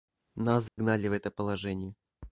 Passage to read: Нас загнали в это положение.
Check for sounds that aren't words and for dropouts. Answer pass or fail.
fail